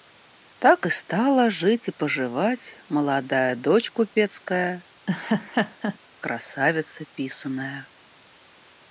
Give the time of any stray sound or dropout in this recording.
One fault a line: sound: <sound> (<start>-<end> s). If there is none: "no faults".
sound: laugh (5.1-6.0 s)